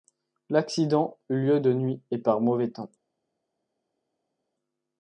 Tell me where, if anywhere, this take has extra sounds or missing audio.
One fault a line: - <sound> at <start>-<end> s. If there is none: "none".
none